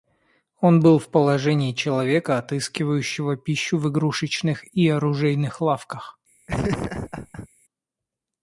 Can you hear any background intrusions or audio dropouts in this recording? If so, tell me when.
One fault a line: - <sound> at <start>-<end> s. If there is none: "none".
- laugh at 6.5-7.5 s